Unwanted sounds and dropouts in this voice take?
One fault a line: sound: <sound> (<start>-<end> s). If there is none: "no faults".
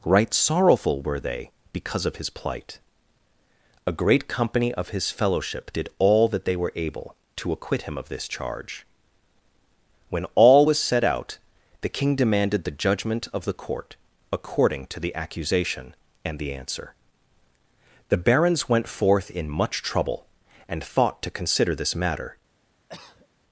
sound: cough (22.9-23.3 s)